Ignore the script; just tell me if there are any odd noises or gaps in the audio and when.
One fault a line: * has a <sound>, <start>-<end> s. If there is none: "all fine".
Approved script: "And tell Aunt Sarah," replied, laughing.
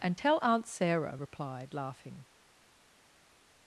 all fine